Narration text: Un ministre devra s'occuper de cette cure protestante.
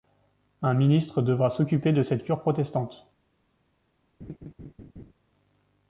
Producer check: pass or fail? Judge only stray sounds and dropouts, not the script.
fail